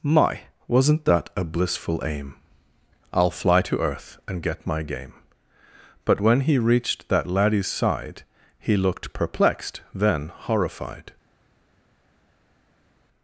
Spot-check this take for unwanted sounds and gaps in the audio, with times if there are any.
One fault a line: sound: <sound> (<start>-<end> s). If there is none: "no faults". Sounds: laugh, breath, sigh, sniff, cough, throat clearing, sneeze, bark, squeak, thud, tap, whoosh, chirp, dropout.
no faults